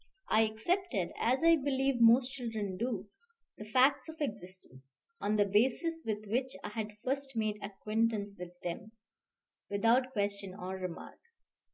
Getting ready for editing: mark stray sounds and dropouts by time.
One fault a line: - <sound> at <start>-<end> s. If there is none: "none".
none